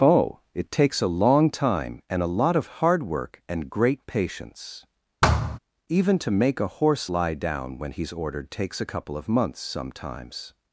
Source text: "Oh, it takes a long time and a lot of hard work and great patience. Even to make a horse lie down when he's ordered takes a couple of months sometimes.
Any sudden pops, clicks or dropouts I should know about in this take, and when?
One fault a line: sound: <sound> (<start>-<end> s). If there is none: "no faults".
sound: thud (5.2-5.6 s)